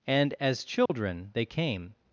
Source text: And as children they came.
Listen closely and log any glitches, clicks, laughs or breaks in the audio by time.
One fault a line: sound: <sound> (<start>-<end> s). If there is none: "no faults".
sound: dropout (0.9-0.9 s)